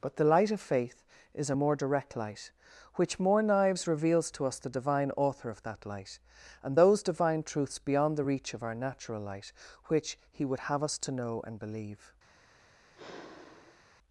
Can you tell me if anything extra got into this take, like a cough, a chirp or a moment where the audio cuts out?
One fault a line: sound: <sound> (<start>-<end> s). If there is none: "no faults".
sound: sigh (13.0-13.8 s)